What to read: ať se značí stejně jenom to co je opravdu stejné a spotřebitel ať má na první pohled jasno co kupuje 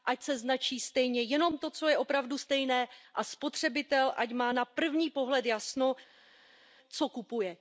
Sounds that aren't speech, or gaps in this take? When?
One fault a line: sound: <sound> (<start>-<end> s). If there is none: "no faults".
no faults